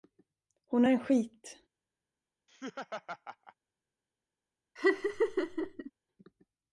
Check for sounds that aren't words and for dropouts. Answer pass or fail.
fail